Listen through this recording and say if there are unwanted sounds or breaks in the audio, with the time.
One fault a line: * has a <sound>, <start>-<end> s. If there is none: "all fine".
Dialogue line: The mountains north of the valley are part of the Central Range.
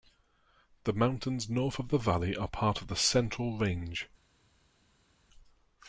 all fine